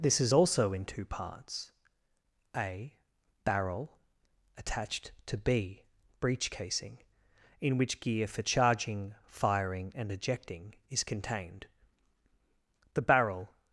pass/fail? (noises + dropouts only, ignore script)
pass